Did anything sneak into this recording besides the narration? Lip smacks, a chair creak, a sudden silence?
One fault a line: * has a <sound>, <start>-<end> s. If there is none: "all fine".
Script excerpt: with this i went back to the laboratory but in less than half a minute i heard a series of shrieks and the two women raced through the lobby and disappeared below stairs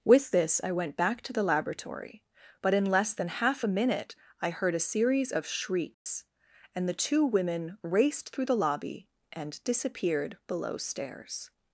* has a dropout, 5.9-6.1 s